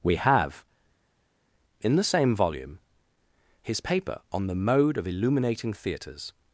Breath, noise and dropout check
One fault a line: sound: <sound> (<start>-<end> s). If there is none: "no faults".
no faults